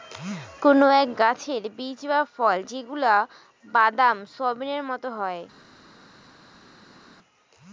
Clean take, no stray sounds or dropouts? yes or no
yes